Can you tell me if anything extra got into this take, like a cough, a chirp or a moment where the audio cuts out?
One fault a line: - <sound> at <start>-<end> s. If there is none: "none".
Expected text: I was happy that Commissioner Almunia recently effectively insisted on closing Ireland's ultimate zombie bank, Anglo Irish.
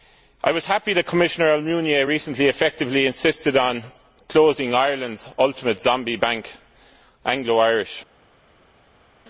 none